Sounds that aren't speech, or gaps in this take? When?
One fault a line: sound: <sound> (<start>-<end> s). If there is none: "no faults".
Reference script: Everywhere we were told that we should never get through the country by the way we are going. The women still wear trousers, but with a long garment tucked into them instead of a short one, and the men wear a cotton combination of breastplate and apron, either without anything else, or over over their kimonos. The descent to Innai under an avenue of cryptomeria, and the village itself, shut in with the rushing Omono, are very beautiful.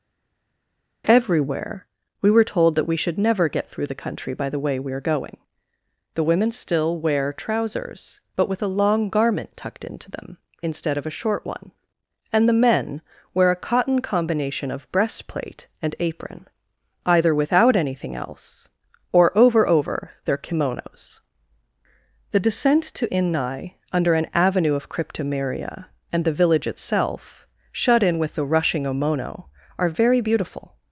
no faults